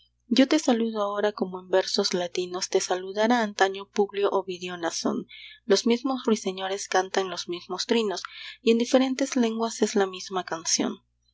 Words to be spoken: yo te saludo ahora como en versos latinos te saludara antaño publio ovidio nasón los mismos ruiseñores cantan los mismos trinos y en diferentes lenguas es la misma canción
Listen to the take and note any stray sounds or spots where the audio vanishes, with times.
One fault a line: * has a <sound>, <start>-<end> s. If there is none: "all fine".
all fine